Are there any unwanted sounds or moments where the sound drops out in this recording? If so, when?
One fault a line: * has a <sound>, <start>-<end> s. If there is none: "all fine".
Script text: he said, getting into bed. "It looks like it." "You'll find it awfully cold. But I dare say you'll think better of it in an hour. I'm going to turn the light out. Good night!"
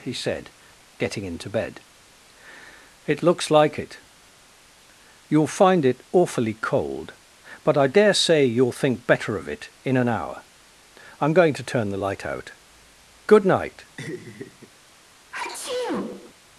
* has a laugh, 14.0-14.7 s
* has a sneeze, 15.3-16.3 s